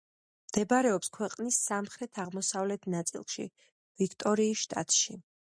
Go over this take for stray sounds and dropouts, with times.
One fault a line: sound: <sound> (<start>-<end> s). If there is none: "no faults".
no faults